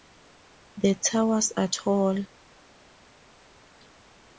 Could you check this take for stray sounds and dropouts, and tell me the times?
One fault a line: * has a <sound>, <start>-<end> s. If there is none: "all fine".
all fine